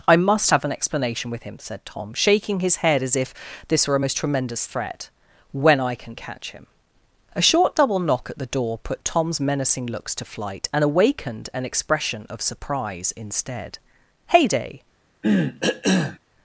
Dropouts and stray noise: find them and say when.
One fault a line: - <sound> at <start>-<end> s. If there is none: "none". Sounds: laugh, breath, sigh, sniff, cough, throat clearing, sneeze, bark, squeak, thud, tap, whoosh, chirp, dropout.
- cough at 15.2-16.2 s